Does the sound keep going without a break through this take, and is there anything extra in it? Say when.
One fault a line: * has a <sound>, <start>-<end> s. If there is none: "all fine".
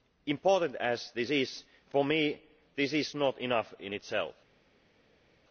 all fine